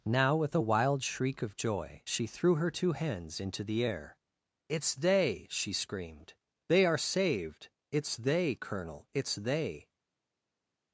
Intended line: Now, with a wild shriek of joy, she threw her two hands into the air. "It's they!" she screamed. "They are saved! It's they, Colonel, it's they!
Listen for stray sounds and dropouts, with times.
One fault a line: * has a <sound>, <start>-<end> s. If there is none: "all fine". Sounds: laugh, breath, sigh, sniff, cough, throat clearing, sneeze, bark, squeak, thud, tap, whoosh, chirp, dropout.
all fine